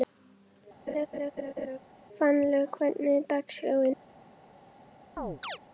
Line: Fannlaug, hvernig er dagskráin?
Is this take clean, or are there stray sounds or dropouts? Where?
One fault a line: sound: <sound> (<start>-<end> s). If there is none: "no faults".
sound: laugh (0.9-1.8 s)
sound: chirp (5.2-5.6 s)